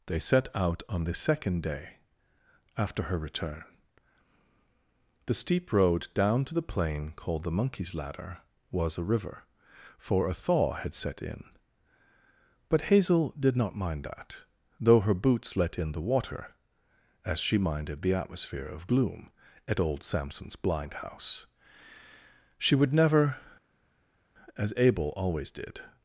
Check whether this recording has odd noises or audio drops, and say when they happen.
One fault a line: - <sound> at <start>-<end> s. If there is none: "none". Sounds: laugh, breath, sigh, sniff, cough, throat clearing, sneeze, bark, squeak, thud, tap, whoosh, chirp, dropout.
none